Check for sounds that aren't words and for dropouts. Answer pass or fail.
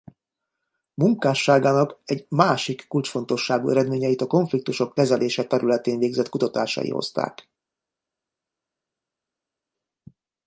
pass